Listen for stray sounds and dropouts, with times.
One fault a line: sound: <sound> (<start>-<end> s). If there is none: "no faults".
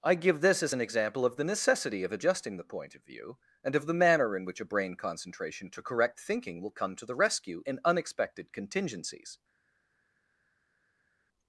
no faults